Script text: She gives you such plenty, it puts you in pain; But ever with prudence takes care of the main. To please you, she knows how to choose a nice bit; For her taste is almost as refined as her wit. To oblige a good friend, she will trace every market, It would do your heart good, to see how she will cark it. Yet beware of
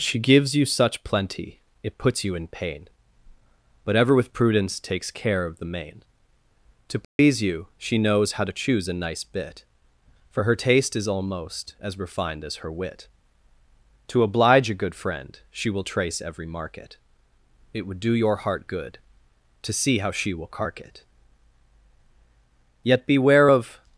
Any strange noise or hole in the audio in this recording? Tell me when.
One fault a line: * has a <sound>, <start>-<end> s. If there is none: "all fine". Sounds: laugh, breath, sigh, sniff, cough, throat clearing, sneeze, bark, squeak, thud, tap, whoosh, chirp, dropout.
* has a dropout, 7.0-7.2 s